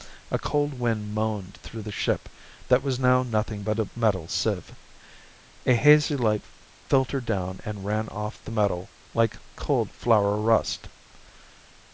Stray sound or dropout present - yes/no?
no